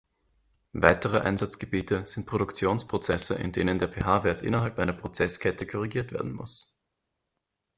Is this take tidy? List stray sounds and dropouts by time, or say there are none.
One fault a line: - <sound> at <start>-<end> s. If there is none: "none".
none